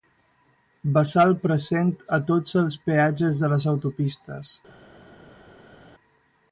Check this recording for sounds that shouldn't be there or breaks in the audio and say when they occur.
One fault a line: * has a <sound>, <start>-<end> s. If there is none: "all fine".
all fine